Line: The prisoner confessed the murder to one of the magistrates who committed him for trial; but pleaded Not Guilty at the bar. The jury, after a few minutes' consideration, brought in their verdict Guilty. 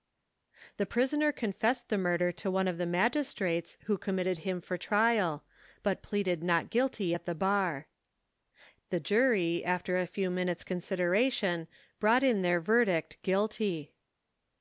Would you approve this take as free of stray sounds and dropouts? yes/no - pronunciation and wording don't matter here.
yes